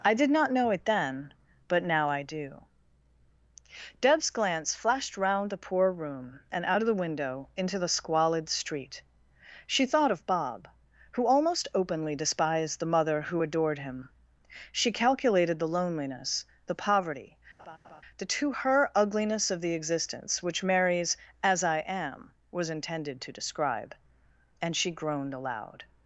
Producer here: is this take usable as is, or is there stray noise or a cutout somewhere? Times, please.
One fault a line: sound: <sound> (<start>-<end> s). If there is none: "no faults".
sound: laugh (17.6-18.0 s)